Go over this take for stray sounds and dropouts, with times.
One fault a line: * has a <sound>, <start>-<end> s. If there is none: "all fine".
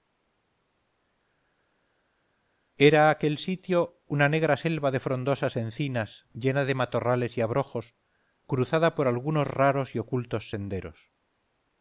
all fine